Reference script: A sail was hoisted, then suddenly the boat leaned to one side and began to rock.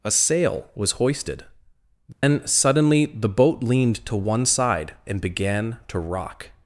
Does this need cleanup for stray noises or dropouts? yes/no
yes